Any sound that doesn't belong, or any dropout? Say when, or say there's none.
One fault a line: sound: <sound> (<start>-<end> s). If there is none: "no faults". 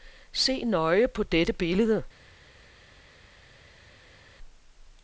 no faults